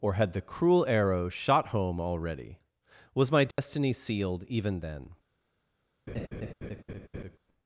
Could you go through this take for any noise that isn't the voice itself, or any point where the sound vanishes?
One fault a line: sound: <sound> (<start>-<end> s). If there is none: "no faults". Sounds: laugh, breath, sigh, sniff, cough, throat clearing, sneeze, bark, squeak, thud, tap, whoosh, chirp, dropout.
sound: dropout (3.5-3.6 s)
sound: laugh (6.1-7.4 s)